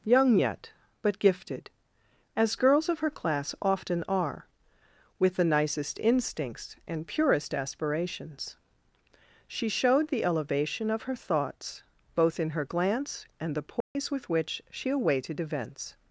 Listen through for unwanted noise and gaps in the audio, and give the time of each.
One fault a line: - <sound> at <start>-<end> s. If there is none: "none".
- dropout at 13.8-14.0 s